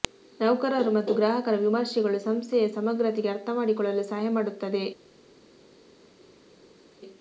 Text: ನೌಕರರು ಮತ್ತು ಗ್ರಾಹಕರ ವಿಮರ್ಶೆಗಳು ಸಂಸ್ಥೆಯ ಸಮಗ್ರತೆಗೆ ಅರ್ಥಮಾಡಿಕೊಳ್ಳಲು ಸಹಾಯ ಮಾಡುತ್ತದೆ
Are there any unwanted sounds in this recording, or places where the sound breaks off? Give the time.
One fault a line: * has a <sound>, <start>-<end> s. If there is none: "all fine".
all fine